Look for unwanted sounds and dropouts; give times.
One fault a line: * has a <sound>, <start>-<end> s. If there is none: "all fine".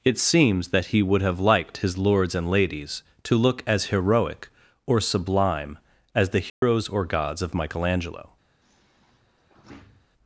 * has a dropout, 6.5-6.6 s
* has a sigh, 8.6-10.1 s